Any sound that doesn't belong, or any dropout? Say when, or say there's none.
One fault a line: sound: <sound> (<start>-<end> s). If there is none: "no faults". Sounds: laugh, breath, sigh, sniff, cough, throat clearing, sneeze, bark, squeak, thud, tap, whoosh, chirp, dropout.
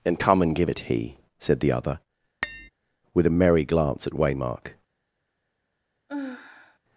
sound: tap (2.4-2.7 s)
sound: sigh (6.1-6.8 s)